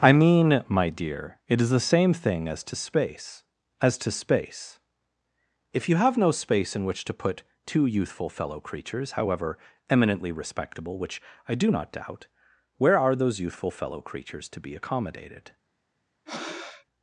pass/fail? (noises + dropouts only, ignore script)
fail